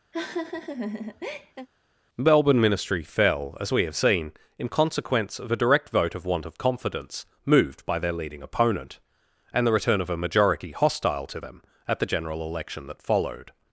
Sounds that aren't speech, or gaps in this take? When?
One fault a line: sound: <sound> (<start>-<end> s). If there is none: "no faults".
sound: laugh (0.1-1.7 s)